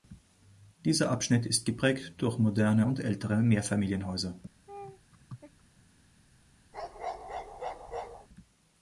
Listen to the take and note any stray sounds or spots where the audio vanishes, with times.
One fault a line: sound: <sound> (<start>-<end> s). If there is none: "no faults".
sound: laugh (4.7-5.6 s)
sound: bark (6.7-8.3 s)